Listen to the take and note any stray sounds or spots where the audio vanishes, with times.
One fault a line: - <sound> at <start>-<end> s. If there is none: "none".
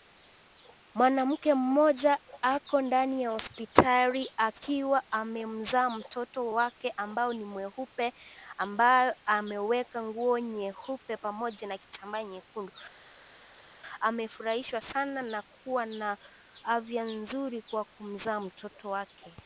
none